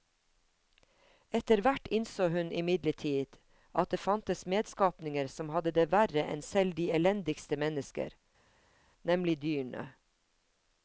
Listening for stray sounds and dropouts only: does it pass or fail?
pass